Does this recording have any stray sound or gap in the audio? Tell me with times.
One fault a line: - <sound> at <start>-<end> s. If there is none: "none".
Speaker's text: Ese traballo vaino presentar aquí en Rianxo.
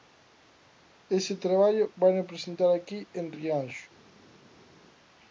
none